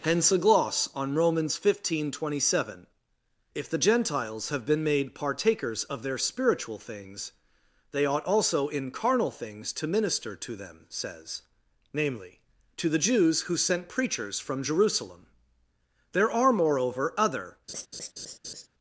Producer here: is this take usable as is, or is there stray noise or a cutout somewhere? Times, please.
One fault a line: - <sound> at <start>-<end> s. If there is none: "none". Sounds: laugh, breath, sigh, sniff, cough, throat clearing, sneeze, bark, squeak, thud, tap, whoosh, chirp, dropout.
- laugh at 17.7-18.7 s